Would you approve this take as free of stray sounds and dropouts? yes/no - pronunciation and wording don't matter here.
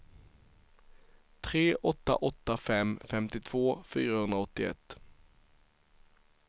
yes